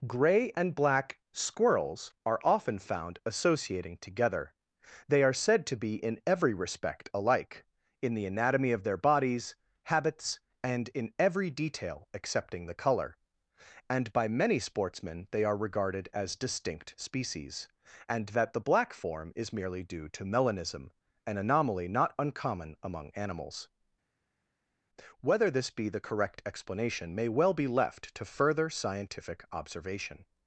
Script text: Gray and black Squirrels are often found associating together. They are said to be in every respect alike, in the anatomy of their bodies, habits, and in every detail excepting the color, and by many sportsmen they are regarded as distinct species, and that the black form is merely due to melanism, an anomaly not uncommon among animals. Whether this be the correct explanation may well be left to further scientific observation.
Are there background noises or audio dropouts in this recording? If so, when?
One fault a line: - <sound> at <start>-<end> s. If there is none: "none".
none